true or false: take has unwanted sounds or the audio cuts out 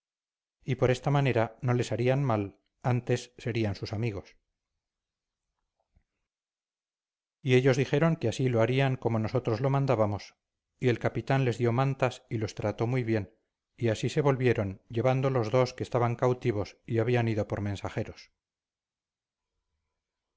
false